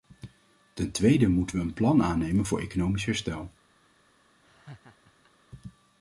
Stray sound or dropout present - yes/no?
yes